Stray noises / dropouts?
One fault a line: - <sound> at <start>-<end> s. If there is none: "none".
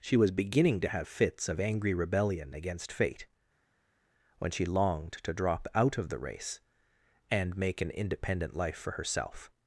none